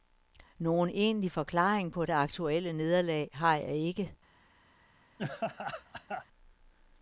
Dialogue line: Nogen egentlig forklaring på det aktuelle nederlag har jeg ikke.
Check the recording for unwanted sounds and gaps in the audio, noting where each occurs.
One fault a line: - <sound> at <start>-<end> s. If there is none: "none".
- laugh at 5.2-6.3 s